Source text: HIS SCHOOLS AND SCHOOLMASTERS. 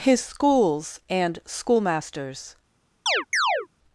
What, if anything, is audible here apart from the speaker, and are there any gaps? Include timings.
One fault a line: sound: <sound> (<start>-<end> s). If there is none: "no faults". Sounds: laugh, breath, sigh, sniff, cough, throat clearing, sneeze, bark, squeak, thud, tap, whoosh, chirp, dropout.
sound: chirp (3.1-3.7 s)